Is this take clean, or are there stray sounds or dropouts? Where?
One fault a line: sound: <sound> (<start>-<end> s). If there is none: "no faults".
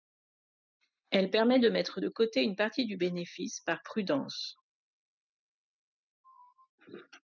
no faults